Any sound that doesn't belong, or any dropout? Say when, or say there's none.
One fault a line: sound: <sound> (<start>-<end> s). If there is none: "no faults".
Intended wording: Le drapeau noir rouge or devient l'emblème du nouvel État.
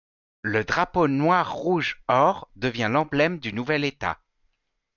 no faults